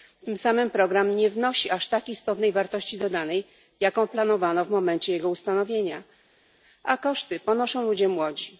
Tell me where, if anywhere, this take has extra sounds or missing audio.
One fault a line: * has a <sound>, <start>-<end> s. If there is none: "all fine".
all fine